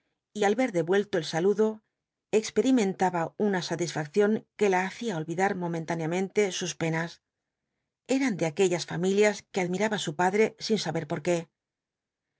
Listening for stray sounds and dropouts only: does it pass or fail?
pass